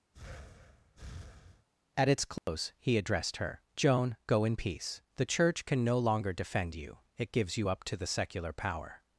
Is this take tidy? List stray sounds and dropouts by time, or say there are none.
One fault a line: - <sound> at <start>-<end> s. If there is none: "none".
- breath at 0.1-1.7 s
- dropout at 2.4-2.5 s